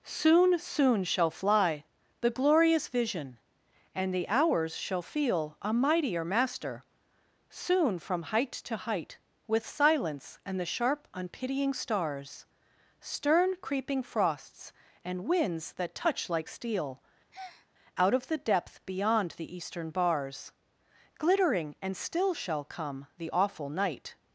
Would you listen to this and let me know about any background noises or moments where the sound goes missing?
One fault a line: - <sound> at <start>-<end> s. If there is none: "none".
- breath at 17.3-17.7 s